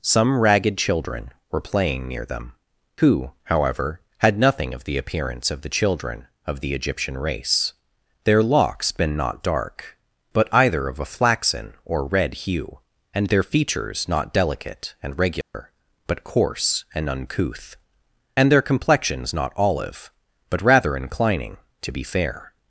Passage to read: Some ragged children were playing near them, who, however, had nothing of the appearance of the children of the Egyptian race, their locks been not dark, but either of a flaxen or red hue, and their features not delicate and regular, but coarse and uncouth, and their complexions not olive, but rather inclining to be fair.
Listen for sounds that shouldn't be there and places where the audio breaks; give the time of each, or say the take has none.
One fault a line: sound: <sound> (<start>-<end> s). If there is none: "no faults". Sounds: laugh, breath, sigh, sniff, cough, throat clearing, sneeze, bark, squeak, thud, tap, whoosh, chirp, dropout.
sound: dropout (15.4-15.5 s)